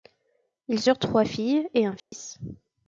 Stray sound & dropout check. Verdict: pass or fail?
fail